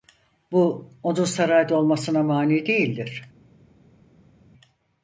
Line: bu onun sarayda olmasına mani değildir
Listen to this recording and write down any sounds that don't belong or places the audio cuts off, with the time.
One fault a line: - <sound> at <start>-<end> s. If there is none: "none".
none